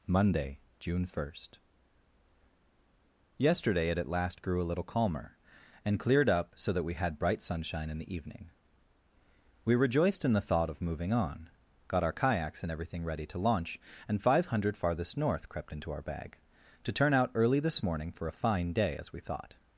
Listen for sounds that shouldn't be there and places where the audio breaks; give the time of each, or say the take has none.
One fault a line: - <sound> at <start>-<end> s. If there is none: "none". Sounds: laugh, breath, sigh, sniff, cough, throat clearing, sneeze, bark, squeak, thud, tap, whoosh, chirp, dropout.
none